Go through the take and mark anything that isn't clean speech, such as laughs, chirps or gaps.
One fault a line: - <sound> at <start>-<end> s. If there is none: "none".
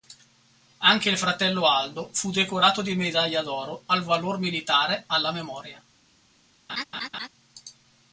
- laugh at 6.7-7.3 s